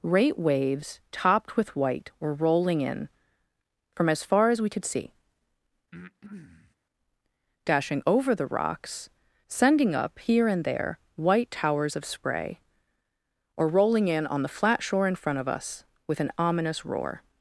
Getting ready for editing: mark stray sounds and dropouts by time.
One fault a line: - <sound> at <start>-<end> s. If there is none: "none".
- breath at 5.9-6.8 s